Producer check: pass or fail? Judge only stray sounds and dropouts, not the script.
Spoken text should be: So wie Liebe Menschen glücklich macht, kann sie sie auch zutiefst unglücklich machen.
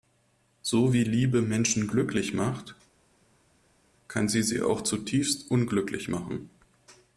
pass